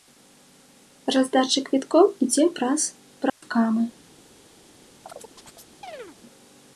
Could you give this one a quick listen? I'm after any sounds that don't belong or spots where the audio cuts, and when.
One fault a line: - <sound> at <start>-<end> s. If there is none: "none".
- dropout at 3.3-3.4 s
- chirp at 5.0-6.2 s